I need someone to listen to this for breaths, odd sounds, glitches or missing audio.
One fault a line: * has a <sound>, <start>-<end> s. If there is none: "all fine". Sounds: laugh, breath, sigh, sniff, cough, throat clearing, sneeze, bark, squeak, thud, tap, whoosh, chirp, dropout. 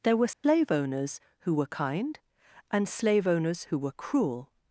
* has a dropout, 0.3-0.4 s